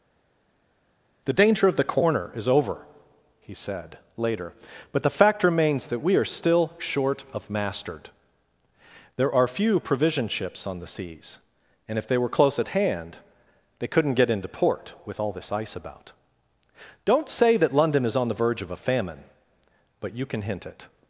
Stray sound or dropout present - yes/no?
no